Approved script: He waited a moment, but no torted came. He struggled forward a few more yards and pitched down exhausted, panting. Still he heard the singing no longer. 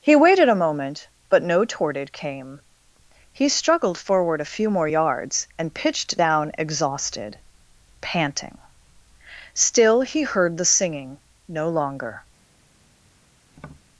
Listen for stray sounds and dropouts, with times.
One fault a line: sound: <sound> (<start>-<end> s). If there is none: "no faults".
sound: tap (13.5-13.8 s)